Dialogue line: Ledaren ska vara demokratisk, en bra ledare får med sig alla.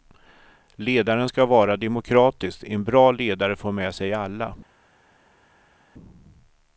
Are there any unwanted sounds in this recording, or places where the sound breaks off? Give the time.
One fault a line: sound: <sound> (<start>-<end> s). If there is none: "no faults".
no faults